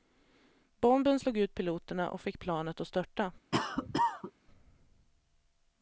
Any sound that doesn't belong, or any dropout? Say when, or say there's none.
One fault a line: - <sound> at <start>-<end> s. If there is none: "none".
- cough at 3.5-4.3 s